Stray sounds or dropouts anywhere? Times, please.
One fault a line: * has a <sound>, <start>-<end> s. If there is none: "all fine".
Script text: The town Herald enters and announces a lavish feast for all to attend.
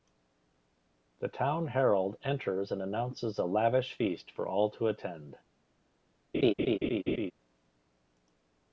* has a laugh, 6.3-7.3 s